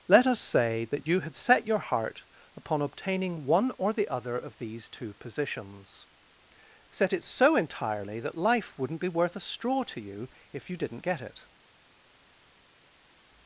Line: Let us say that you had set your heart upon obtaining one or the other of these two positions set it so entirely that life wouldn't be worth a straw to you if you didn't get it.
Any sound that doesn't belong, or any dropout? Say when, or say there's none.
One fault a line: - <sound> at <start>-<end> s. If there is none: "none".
none